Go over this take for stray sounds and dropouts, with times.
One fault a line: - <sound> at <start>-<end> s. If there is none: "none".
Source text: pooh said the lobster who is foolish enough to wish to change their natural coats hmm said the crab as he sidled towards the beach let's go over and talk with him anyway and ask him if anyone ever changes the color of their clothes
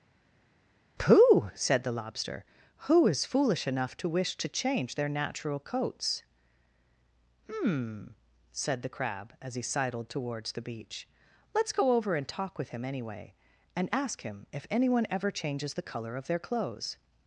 none